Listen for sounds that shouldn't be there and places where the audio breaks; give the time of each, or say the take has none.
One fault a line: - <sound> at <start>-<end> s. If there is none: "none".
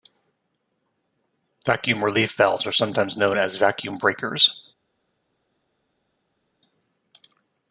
none